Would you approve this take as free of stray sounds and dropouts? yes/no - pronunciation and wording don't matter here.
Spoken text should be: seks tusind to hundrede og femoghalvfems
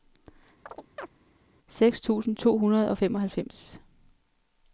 no